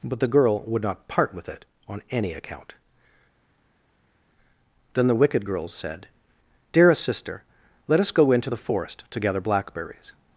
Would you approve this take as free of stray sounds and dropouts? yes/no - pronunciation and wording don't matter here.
yes